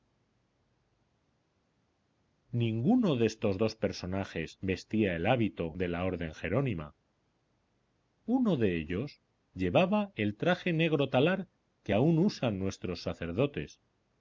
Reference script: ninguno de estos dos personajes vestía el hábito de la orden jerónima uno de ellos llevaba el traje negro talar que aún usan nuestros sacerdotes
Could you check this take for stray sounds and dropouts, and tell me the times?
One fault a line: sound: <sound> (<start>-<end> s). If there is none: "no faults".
no faults